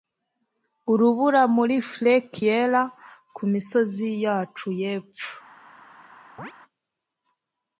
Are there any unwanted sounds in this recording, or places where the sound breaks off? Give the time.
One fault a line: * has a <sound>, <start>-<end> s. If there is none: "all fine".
* has a chirp, 6.4-6.5 s